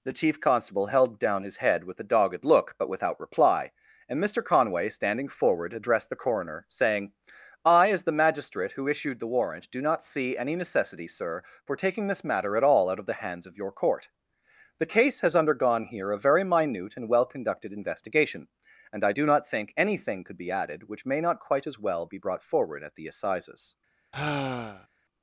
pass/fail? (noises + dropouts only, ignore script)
fail